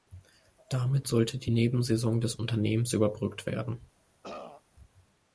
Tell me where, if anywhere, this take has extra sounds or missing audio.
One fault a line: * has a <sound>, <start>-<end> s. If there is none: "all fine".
* has a throat clearing, 4.2-4.6 s